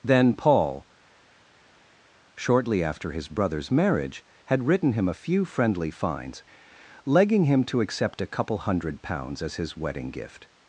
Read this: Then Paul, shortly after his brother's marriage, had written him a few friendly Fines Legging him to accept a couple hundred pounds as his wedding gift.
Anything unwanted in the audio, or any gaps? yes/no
no